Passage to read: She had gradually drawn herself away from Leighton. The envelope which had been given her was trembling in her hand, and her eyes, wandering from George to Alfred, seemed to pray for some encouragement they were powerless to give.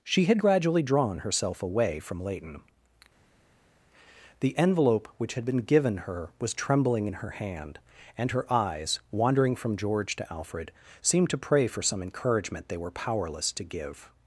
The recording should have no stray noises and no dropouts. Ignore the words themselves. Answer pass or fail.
pass